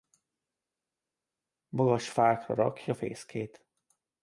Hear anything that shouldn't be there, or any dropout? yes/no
no